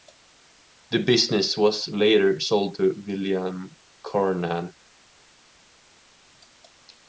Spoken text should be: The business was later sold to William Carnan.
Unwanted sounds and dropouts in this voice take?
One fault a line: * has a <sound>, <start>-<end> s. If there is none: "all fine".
all fine